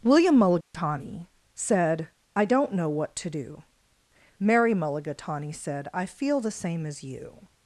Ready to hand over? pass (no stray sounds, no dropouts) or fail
fail